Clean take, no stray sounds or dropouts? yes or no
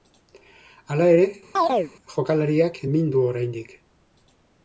no